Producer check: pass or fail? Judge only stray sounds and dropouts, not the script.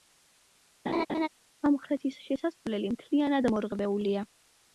fail